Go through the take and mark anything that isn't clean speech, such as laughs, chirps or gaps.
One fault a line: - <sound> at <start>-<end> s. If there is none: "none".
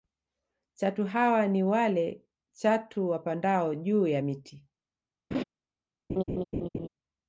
- laugh at 5.3-5.4 s
- laugh at 6.1-6.9 s